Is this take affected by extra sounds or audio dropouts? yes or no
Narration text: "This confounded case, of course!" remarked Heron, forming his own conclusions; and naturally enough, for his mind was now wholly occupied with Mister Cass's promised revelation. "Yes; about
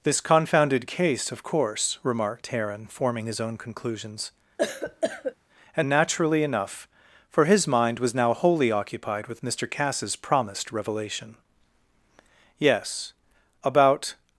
yes